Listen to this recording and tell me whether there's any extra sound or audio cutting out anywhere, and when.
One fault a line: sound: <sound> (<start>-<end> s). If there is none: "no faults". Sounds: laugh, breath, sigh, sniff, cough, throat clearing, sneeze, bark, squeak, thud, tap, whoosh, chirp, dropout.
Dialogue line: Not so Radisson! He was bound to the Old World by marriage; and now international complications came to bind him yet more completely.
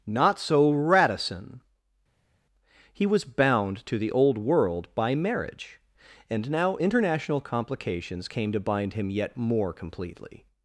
no faults